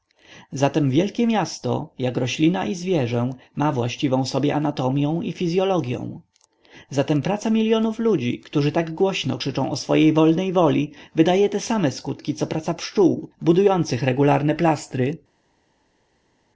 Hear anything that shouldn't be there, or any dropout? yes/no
no